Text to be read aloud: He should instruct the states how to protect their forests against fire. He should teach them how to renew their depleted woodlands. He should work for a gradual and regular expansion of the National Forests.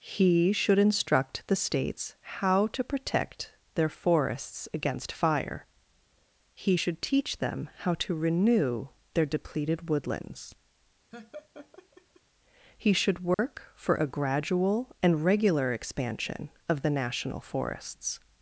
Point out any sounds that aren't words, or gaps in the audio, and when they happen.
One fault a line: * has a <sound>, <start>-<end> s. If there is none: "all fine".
* has a laugh, 11.1-12.2 s
* has a dropout, 13.3-13.4 s